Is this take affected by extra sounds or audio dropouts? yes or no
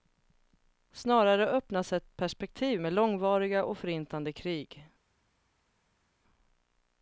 no